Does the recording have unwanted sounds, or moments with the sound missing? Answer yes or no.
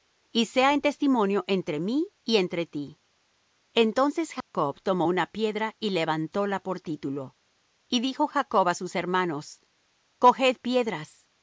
yes